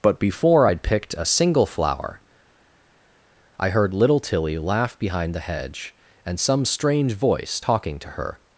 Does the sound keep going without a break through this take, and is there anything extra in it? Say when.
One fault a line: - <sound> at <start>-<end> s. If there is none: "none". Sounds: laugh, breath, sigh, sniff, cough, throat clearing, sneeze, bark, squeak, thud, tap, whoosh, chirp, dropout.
none